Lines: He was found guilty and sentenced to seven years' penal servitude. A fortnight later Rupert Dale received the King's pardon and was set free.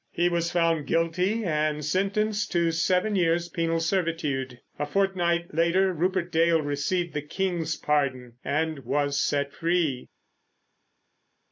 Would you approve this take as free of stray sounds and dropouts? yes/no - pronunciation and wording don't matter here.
yes